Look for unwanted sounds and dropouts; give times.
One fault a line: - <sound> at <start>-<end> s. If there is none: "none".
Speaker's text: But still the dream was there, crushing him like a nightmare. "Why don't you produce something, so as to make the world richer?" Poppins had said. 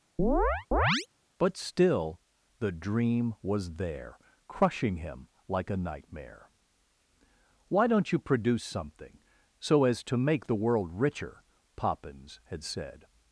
- chirp at 0.2-1.1 s